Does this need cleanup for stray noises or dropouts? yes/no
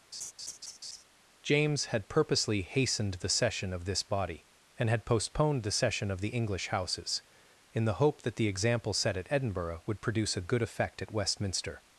yes